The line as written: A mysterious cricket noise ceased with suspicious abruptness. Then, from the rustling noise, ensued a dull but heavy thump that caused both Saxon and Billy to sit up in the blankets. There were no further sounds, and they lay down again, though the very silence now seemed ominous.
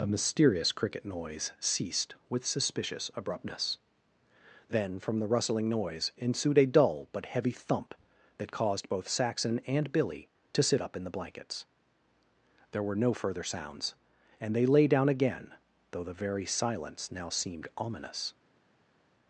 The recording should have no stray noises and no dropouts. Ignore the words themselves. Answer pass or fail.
pass